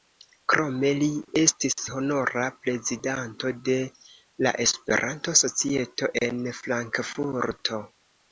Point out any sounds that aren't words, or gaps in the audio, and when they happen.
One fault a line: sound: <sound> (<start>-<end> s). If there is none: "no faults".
no faults